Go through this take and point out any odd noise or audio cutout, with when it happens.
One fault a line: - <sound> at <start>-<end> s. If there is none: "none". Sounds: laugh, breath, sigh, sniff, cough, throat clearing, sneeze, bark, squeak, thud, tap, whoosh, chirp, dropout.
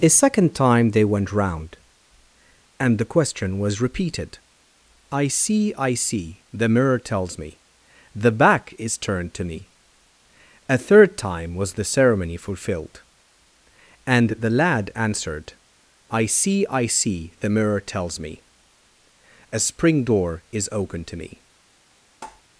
- tap at 22.2-22.4 s